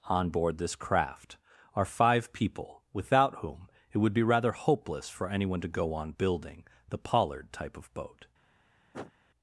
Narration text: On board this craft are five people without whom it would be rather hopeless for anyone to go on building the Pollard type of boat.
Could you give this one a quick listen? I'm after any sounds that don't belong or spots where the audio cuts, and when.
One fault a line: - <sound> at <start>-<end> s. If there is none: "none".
- sniff at 8.9-9.1 s